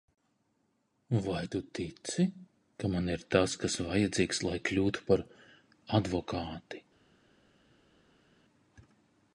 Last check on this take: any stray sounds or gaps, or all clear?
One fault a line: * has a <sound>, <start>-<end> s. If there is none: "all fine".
all fine